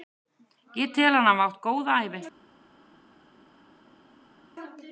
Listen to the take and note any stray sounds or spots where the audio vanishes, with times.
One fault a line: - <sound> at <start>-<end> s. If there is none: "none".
none